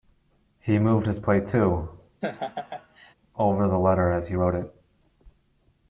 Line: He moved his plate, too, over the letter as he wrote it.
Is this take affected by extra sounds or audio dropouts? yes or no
yes